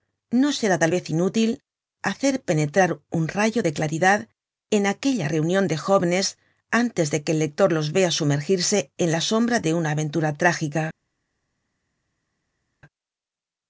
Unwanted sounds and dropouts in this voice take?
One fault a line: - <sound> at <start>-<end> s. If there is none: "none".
none